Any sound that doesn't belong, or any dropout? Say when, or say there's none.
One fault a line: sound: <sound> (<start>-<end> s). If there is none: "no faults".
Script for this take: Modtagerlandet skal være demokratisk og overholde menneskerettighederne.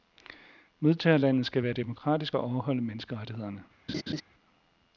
sound: laugh (3.9-4.2 s)